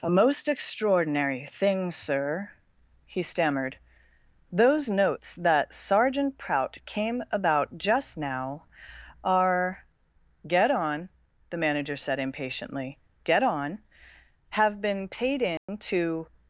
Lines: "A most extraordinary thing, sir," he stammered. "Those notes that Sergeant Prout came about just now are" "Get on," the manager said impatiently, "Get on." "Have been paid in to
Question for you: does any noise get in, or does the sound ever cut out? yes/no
yes